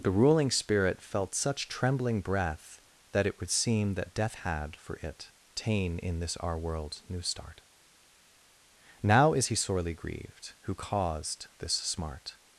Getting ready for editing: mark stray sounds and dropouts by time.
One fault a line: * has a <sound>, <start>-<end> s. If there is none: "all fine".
all fine